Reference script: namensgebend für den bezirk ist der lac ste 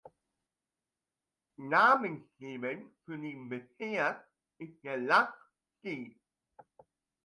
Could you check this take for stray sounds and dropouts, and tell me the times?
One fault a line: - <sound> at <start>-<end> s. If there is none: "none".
none